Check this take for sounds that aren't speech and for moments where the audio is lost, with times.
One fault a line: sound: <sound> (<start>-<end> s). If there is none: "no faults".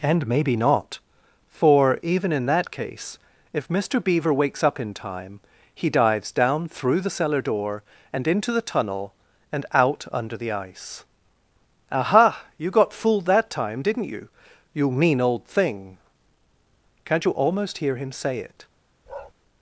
sound: bark (19.1-19.3 s)